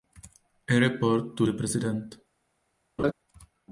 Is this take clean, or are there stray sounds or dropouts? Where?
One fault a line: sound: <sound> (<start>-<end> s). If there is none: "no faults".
sound: laugh (3.0-3.1 s)